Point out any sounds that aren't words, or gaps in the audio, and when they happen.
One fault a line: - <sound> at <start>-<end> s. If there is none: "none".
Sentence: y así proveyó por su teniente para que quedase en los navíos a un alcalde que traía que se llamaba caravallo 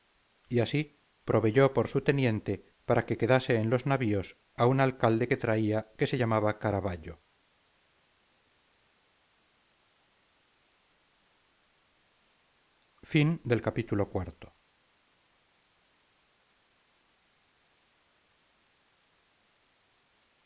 none